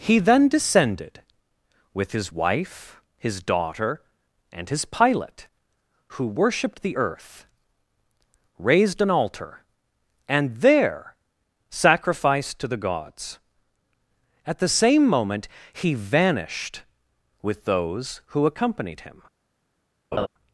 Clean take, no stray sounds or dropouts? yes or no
no